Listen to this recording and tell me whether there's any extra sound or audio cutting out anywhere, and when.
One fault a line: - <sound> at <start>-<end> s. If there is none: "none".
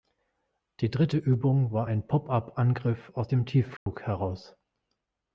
- dropout at 3.8-3.9 s